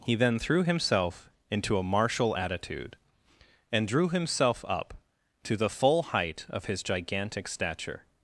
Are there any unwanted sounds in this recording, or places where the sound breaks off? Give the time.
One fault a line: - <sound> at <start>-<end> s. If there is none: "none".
none